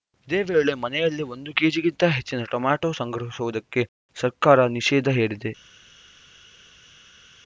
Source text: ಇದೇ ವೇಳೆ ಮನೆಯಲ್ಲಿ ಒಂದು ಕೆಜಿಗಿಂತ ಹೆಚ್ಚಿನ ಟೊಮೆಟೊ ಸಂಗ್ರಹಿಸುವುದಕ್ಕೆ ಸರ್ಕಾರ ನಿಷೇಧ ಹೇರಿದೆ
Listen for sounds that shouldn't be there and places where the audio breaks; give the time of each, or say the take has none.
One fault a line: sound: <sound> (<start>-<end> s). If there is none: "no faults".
no faults